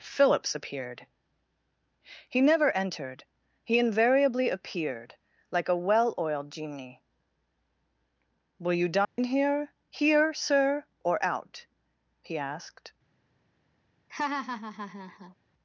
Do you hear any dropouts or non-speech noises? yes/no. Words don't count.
yes